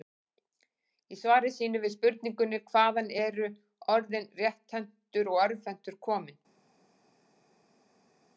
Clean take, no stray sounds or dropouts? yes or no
yes